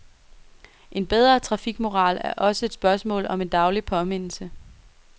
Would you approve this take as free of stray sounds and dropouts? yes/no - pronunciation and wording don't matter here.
yes